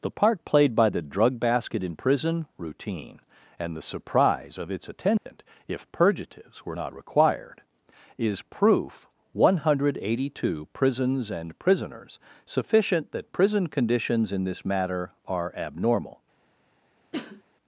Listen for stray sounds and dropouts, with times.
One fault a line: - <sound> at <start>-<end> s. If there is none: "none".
- dropout at 5.2-5.3 s
- cough at 17.1-17.4 s